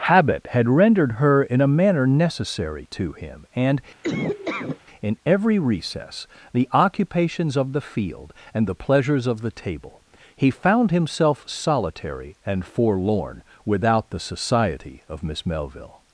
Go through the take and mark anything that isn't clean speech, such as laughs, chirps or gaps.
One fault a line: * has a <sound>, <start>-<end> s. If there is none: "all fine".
* has a laugh, 4.0-4.8 s